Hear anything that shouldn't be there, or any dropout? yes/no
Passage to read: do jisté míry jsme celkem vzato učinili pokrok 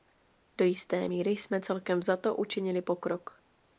no